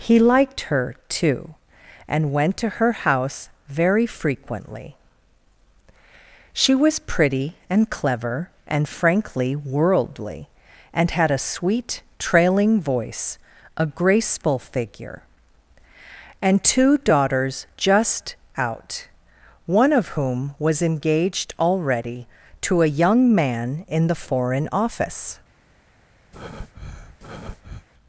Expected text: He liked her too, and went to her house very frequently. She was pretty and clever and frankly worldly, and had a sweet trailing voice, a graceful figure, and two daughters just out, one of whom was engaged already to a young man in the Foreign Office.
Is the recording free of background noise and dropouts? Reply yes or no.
no